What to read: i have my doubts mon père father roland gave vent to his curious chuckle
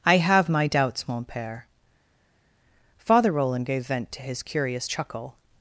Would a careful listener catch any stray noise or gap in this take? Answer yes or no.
no